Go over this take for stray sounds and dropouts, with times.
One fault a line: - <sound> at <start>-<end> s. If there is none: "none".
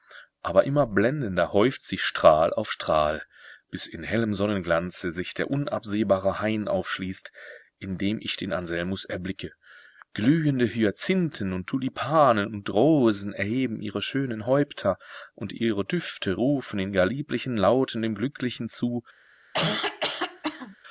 - cough at 19.5-20.8 s